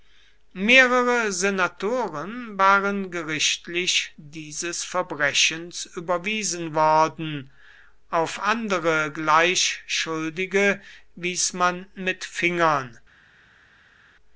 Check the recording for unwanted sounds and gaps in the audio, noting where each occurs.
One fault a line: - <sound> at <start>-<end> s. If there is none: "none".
none